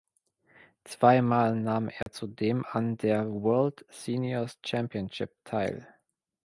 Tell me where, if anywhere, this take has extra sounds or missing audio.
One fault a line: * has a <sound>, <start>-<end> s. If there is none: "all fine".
* has a dropout, 2.0-2.1 s